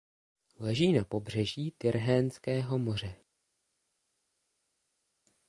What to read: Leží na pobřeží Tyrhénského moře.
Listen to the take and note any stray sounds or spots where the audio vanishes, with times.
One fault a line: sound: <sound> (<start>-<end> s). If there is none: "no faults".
no faults